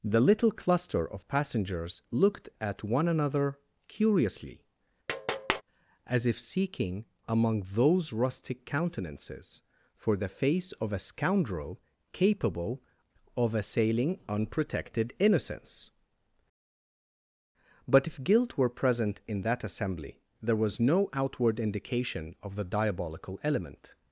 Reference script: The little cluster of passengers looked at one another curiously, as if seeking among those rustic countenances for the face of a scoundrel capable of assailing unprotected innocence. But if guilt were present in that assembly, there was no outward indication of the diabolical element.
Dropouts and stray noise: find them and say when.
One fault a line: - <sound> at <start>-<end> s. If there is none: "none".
- tap at 5.1-5.6 s